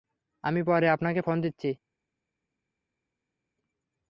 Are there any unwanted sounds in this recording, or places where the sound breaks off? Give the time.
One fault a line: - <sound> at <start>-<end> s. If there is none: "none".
none